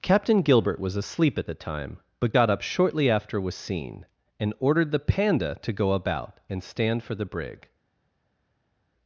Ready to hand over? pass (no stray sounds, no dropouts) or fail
pass